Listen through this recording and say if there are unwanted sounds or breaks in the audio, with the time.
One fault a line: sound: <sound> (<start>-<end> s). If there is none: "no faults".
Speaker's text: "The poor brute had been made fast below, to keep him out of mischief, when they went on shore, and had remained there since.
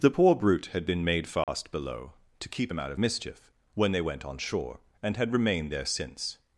sound: dropout (1.4-1.5 s)